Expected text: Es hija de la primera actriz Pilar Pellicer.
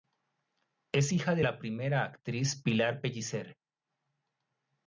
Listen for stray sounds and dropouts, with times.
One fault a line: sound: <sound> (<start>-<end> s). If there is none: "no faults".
no faults